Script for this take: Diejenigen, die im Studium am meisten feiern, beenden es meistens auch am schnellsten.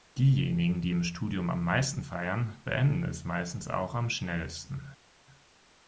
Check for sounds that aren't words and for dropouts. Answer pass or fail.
pass